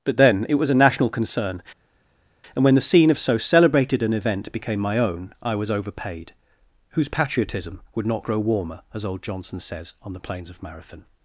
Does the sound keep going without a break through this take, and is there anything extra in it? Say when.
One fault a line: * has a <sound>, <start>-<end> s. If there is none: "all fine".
all fine